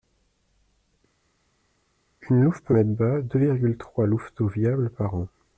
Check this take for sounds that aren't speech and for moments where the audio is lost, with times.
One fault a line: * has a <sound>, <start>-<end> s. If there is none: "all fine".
all fine